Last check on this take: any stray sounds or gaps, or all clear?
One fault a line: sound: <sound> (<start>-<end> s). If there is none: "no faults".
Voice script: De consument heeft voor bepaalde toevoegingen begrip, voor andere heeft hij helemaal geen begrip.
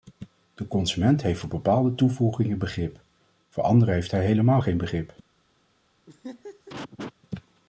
sound: laugh (6.1-7.1 s)